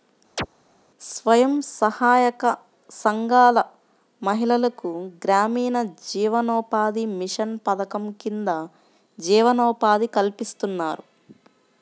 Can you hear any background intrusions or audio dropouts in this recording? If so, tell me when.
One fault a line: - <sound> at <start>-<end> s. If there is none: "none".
- chirp at 0.4-0.5 s